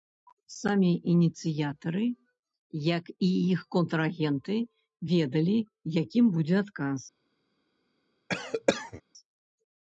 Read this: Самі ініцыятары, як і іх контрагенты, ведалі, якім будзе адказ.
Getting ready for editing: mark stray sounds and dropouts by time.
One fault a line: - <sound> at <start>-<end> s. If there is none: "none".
- cough at 8.3-9.0 s